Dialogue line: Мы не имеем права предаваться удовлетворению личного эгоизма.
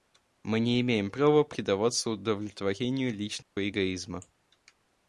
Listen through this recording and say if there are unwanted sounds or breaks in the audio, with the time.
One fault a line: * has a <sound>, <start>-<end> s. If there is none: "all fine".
* has a dropout, 3.4-3.6 s